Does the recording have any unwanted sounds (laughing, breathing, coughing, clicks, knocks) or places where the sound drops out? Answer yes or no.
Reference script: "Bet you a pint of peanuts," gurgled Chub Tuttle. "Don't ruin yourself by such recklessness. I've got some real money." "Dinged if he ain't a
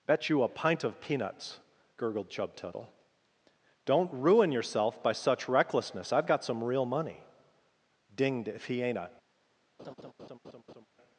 yes